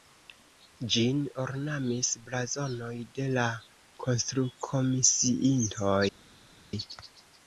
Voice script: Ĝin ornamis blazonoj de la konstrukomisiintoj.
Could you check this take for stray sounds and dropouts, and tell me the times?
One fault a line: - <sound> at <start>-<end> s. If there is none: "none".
none